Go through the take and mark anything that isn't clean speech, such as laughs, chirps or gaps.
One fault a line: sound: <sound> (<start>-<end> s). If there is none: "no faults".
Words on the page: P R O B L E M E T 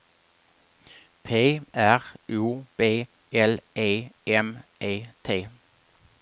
no faults